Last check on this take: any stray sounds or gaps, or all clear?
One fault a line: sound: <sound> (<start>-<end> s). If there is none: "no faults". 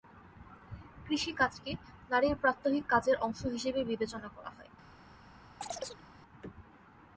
sound: chirp (5.6-6.0 s)